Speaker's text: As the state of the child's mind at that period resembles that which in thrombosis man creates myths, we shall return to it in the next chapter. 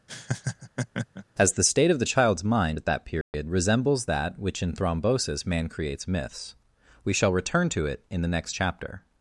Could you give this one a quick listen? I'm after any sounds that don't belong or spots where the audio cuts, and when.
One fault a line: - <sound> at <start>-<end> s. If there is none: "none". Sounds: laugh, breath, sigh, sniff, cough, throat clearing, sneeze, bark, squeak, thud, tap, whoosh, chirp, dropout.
- laugh at 0.1-1.3 s
- dropout at 3.2-3.3 s